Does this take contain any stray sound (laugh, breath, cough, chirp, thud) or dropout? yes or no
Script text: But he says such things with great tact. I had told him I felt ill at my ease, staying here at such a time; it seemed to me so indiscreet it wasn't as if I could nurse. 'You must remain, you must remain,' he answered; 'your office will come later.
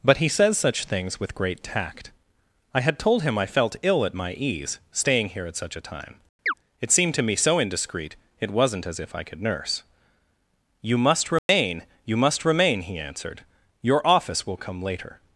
yes